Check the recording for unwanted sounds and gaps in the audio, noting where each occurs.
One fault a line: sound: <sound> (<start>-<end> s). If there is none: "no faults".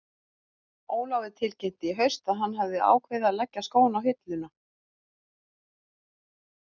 no faults